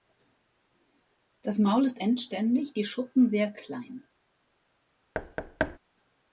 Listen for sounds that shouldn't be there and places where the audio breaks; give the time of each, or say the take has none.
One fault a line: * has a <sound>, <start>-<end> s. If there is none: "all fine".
* has a thud, 5.1-5.8 s